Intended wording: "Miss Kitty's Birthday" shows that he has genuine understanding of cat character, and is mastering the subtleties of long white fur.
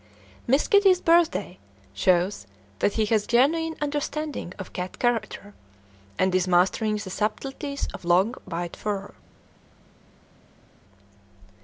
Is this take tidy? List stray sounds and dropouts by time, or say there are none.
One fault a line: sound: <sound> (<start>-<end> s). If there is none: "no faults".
no faults